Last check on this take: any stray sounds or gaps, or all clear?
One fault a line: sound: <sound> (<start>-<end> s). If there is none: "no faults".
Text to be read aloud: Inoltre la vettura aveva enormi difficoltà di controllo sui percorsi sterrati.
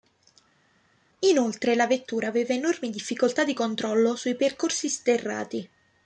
no faults